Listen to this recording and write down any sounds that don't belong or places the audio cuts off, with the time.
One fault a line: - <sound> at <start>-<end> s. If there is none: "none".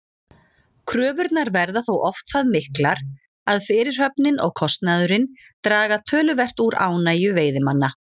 none